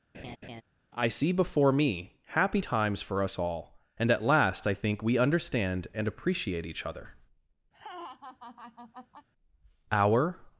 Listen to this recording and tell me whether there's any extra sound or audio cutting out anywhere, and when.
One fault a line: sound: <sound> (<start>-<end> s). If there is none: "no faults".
sound: laugh (0.1-0.6 s)
sound: laugh (7.7-9.3 s)